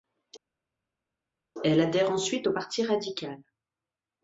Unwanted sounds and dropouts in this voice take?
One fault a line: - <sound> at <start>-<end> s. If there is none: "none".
none